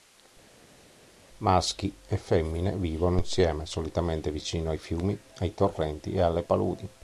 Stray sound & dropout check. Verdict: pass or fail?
pass